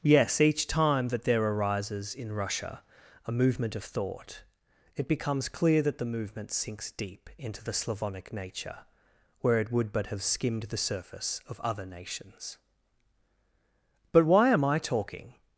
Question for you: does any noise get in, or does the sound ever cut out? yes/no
no